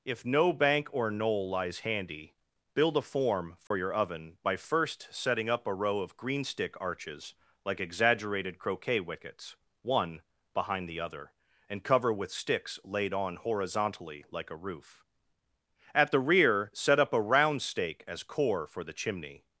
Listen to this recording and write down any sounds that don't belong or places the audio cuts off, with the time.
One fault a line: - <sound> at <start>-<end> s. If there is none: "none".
- dropout at 3.7-3.7 s